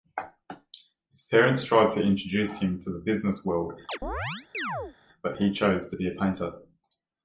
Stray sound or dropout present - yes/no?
yes